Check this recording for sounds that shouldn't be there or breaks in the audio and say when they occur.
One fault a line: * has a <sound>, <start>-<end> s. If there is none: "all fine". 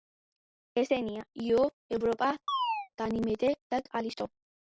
* has a chirp, 2.5-2.9 s